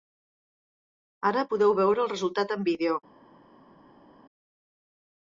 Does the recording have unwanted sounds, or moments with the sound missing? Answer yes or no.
no